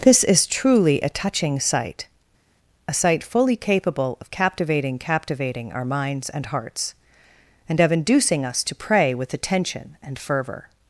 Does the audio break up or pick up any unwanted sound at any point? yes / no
no